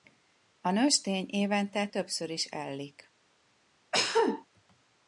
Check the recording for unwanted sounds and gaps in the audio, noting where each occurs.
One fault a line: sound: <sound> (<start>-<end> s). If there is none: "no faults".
sound: cough (3.9-4.5 s)